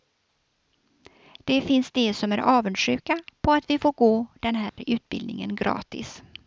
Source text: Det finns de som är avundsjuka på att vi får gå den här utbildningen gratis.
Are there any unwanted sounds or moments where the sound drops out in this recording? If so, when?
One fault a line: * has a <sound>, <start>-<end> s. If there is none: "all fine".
* has a dropout, 4.7-4.8 s